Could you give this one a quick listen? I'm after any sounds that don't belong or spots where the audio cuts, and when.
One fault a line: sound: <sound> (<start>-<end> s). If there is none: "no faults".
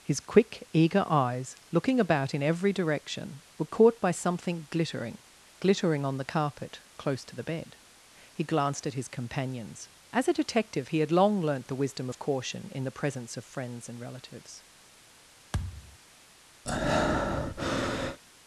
sound: thud (15.5-16.0 s)
sound: breath (16.6-18.2 s)